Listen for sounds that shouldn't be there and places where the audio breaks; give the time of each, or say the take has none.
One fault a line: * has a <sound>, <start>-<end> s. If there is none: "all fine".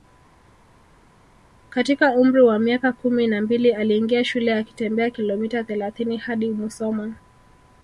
all fine